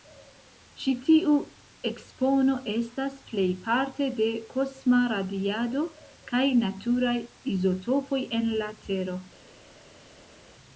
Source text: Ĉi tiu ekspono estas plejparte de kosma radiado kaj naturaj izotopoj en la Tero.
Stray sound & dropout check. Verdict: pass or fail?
pass